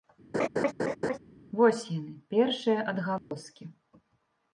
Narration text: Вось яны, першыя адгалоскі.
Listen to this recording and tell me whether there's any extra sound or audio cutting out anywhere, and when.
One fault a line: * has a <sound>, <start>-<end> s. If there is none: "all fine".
* has a laugh, 0.3-1.2 s
* has a dropout, 3.2-3.3 s